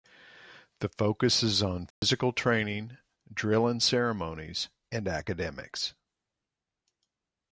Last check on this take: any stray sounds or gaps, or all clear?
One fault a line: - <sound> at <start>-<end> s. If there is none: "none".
- dropout at 1.9-2.0 s